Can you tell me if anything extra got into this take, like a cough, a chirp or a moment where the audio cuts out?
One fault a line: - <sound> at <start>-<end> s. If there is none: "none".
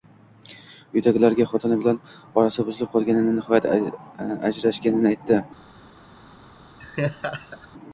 - laugh at 6.8-7.7 s